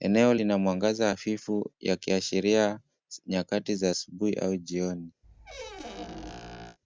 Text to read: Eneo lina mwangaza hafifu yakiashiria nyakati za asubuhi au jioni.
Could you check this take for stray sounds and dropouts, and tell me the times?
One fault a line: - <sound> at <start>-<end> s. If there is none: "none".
- squeak at 5.2-6.8 s